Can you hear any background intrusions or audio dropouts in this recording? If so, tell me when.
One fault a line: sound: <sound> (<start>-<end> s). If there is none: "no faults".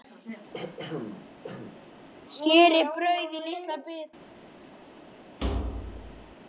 sound: throat clearing (0.5-1.8 s)
sound: thud (5.4-6.4 s)